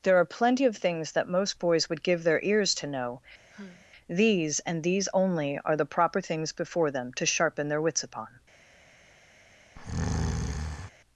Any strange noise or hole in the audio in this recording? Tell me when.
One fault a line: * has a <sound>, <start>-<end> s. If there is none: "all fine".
* has a sigh, 3.5-3.9 s
* has a breath, 9.8-10.9 s